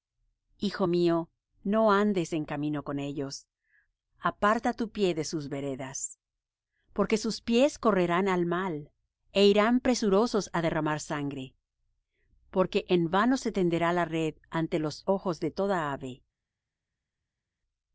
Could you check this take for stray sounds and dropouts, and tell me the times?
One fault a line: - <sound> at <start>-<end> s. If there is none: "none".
none